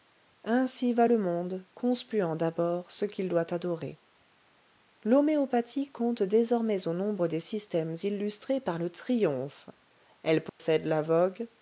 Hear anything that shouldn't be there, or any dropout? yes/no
yes